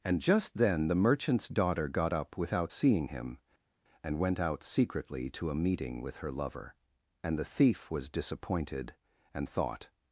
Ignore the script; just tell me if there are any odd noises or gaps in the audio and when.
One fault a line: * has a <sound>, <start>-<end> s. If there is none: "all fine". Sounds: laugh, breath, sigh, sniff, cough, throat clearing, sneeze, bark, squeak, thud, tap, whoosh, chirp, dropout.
all fine